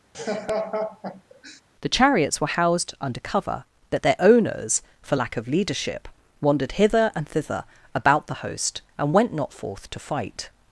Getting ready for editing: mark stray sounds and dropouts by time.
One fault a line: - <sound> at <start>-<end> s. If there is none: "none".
- laugh at 0.1-1.6 s